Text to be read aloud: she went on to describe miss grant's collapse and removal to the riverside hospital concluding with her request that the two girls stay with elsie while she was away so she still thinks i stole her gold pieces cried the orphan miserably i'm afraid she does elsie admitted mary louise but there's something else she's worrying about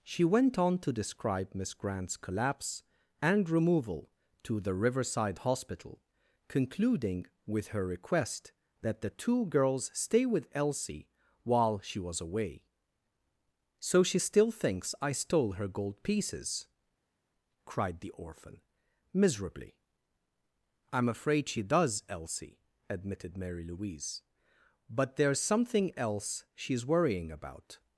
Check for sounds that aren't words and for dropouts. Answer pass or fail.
pass